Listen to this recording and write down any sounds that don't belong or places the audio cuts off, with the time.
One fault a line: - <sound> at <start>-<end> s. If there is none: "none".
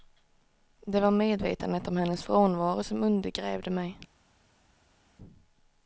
none